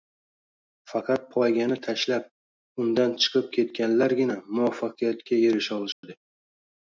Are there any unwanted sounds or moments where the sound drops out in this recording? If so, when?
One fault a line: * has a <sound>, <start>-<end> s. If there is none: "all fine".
* has a dropout, 5.9-6.0 s